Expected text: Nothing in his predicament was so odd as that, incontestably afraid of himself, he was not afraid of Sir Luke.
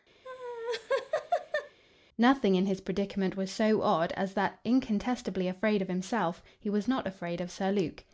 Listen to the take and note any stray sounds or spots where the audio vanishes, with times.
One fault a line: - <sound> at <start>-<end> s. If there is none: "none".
- laugh at 0.2-1.8 s